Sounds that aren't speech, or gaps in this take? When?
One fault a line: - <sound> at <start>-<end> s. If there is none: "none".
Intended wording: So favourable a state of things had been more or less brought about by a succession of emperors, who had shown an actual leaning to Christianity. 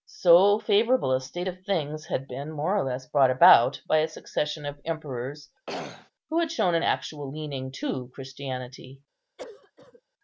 - throat clearing at 5.7-6.1 s
- cough at 9.4-10.0 s